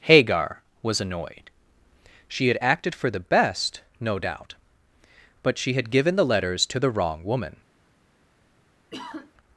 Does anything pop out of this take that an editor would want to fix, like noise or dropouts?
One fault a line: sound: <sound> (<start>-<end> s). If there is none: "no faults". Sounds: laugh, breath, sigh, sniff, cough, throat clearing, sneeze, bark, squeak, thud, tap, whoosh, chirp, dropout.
sound: sigh (8.9-9.3 s)